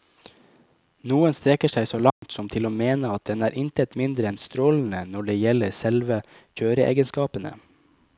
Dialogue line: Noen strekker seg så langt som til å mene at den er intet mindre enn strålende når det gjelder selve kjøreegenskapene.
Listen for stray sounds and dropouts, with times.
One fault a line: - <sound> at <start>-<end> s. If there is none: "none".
- dropout at 2.1-2.2 s